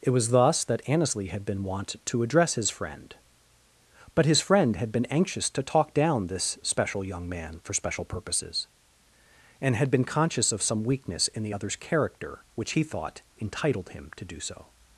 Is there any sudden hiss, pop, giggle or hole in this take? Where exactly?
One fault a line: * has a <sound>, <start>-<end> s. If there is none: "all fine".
all fine